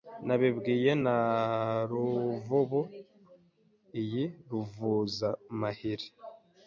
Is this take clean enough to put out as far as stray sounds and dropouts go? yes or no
yes